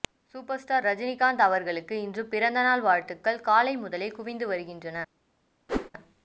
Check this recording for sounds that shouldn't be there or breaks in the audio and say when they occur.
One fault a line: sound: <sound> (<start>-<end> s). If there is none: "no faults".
sound: whoosh (5.7-5.9 s)